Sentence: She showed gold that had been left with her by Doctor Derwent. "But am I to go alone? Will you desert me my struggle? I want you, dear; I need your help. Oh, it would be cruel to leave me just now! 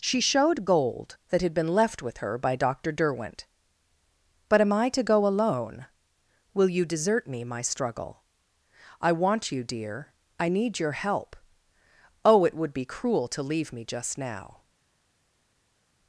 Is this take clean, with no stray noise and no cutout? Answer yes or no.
yes